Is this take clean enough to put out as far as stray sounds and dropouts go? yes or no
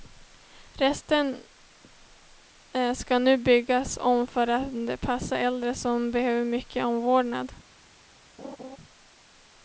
no